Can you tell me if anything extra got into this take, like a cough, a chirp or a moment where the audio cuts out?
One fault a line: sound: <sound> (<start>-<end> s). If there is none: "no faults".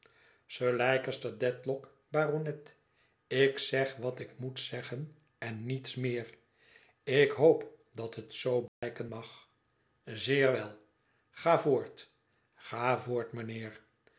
sound: dropout (8.7-8.8 s)